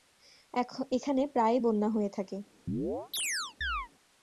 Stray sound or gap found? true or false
true